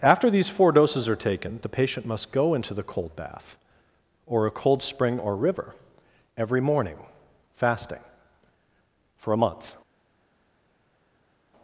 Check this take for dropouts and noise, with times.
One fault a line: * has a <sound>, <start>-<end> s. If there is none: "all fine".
all fine